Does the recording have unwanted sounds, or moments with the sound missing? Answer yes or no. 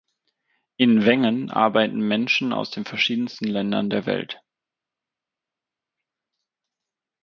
no